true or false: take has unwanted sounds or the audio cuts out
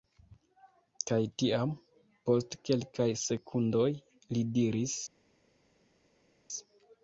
false